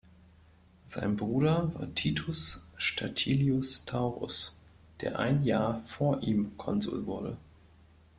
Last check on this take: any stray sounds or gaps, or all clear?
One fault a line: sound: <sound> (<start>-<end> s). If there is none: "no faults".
no faults